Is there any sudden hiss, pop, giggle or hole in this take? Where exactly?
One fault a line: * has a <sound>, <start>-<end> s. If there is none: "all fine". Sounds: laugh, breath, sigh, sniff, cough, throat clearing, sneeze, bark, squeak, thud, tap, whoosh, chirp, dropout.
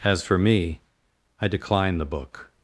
all fine